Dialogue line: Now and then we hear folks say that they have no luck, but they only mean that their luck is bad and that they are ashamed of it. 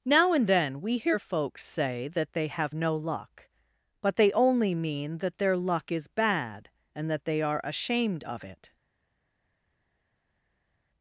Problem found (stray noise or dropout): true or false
false